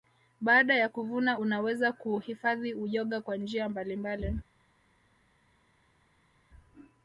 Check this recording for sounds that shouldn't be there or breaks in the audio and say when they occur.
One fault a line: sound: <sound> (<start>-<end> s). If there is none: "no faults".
no faults